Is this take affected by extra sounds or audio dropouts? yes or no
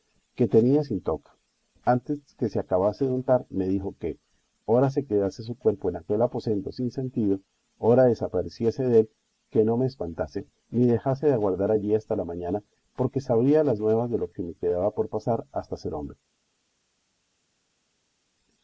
no